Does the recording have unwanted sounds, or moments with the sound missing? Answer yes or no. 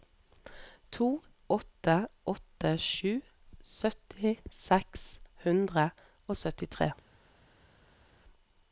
no